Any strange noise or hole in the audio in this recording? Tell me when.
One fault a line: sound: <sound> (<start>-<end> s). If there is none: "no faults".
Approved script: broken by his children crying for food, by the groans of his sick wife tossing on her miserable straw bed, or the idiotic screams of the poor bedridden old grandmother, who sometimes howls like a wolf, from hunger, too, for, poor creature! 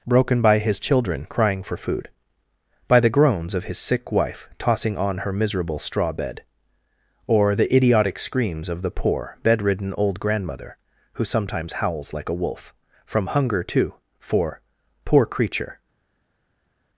no faults